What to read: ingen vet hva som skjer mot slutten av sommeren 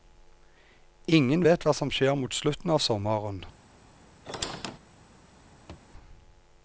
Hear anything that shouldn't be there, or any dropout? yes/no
yes